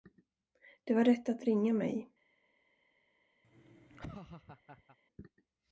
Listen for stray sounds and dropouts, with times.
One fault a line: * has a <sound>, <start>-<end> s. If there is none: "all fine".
* has a laugh, 3.4-5.0 s